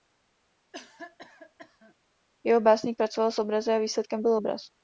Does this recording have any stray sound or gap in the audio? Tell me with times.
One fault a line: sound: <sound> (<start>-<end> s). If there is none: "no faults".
sound: cough (0.7-1.9 s)